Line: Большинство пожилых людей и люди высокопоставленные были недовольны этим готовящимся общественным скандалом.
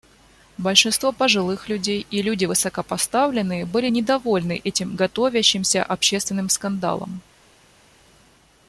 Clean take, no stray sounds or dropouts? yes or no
yes